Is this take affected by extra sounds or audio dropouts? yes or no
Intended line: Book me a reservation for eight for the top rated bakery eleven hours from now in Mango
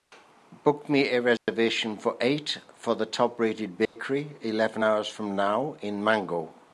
yes